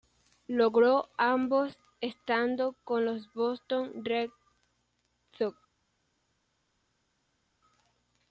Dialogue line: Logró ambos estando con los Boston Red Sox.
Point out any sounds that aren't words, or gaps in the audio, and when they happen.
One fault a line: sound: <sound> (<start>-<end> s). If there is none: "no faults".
no faults